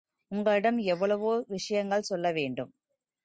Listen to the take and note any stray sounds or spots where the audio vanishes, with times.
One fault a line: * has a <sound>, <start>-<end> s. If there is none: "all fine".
all fine